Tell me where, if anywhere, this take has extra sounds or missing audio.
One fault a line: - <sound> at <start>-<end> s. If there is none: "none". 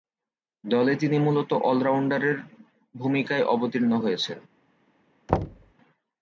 - thud at 5.3-5.7 s